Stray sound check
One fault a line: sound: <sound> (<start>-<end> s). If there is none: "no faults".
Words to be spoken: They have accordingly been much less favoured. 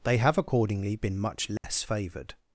sound: dropout (1.6-1.6 s)